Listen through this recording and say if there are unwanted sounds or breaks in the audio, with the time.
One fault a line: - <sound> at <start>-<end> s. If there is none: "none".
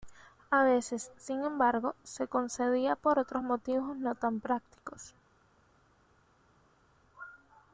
none